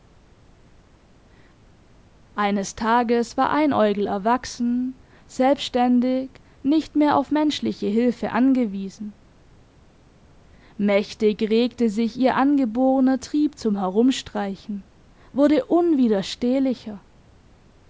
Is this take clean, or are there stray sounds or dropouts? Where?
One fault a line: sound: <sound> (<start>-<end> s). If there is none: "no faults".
no faults